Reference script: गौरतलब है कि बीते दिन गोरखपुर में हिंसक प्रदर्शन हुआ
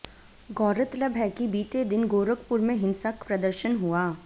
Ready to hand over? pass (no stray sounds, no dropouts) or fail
pass